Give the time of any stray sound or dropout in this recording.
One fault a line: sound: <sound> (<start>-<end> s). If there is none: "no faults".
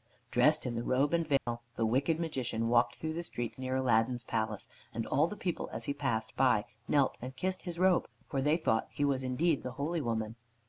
sound: dropout (1.4-1.5 s)